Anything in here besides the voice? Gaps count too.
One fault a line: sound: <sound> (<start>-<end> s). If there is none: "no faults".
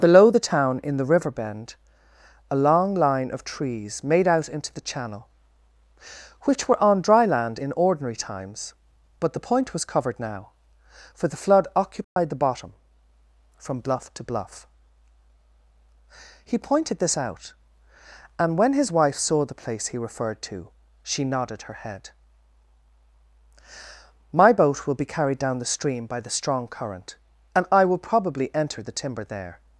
sound: dropout (12.0-12.2 s)